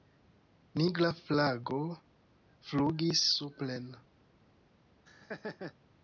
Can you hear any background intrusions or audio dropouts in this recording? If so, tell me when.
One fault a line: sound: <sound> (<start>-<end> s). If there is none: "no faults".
sound: laugh (5.1-5.7 s)